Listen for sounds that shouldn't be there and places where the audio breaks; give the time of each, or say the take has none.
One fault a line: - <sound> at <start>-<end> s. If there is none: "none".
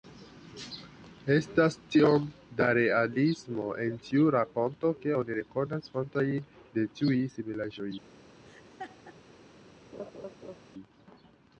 - laugh at 8.4-9.2 s
- laugh at 9.9-10.6 s